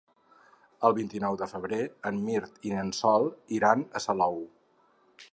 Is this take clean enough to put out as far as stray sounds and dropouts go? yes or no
yes